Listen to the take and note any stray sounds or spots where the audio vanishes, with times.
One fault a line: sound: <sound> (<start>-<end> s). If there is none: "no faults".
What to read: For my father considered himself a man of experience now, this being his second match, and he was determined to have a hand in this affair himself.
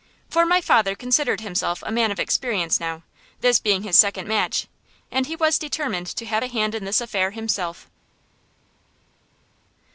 no faults